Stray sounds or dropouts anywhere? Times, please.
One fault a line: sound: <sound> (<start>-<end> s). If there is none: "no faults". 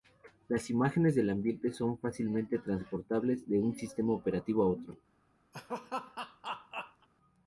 sound: laugh (5.5-7.1 s)